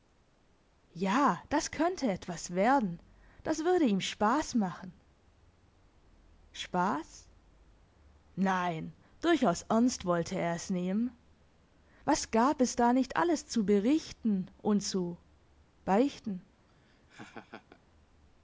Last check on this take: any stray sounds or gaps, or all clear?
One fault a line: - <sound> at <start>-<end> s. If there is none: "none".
- laugh at 16.7-17.8 s